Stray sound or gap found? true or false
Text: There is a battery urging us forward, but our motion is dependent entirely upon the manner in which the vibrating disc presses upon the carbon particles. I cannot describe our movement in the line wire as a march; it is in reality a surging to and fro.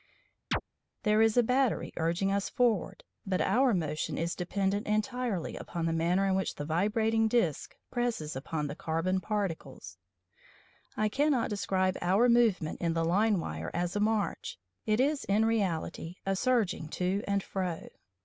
true